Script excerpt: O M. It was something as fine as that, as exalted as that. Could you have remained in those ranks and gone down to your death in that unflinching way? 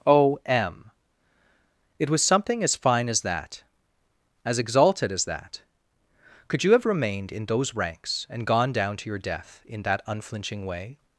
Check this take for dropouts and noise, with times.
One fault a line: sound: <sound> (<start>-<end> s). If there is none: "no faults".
no faults